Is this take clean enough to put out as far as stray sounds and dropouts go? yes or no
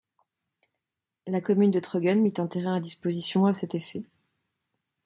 yes